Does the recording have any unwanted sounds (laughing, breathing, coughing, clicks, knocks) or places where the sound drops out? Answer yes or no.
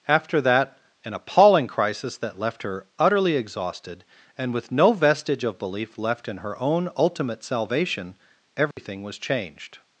yes